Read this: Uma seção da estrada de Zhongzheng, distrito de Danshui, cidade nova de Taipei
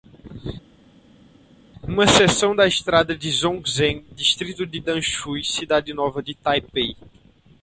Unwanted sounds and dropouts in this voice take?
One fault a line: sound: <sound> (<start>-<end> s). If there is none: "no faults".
no faults